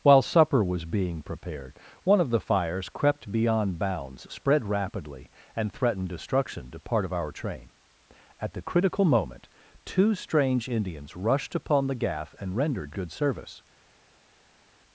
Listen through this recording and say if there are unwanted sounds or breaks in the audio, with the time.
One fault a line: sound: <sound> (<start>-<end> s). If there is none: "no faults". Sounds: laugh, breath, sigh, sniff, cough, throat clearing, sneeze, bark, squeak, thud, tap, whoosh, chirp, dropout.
no faults